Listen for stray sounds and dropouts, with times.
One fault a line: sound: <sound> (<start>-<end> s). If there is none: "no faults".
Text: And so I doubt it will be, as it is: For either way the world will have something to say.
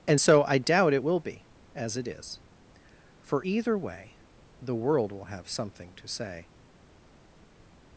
no faults